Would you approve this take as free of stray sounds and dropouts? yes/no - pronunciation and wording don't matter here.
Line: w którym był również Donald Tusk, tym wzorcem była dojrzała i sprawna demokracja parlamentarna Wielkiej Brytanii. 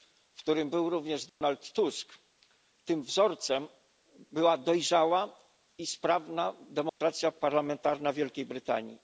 no